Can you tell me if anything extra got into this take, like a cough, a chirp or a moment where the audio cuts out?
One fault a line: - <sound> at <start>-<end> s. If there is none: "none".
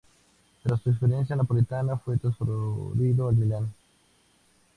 none